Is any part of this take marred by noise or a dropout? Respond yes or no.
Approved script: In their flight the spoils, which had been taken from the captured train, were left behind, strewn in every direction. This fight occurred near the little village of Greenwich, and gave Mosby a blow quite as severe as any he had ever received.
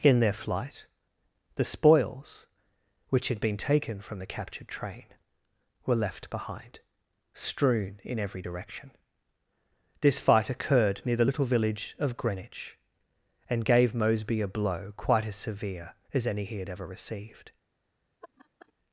yes